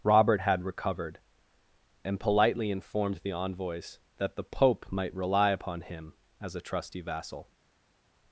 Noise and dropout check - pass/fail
pass